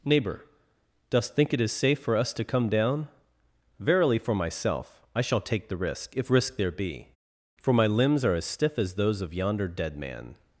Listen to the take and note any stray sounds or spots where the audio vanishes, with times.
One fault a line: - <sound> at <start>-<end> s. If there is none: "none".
none